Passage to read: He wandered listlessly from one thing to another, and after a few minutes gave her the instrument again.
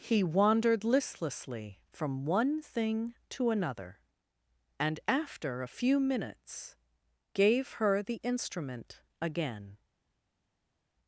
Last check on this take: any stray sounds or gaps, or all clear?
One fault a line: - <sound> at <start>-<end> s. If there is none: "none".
none